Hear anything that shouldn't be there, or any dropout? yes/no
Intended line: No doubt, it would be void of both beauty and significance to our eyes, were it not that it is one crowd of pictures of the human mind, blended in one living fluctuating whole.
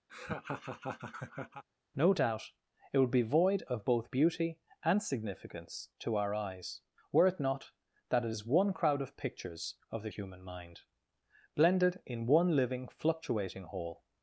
yes